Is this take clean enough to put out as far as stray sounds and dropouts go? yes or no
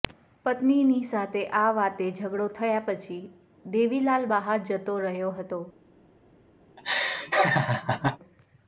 no